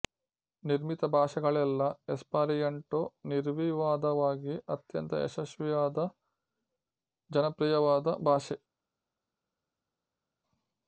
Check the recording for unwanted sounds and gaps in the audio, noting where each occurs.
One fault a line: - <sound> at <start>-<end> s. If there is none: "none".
none